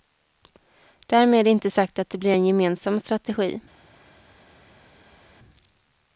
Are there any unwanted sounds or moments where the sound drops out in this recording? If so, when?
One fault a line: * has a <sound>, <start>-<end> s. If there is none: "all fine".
all fine